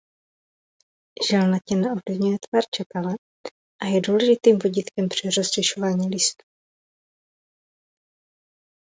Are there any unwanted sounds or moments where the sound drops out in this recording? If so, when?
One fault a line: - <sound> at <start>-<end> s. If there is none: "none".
none